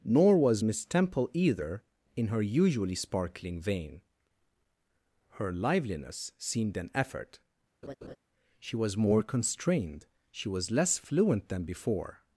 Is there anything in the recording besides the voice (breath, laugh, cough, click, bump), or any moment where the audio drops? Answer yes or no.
yes